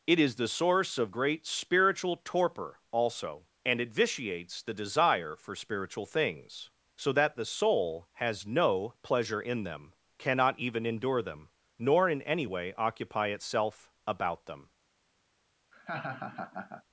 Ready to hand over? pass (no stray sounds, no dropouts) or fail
fail